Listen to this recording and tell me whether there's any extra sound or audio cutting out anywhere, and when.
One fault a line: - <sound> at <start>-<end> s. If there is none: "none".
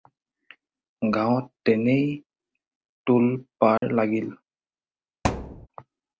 - dropout at 3.8-3.8 s
- thud at 5.2-5.7 s